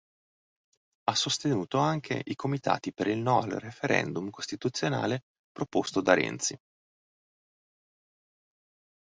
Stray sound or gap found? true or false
false